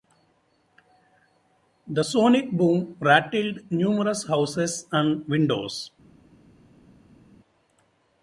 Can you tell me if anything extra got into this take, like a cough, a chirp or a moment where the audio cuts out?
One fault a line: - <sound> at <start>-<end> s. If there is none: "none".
none